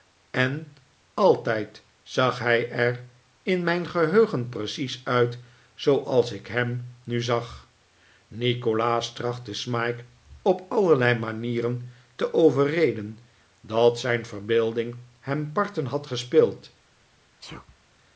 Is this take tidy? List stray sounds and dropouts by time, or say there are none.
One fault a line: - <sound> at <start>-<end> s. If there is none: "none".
- sneeze at 17.4-17.8 s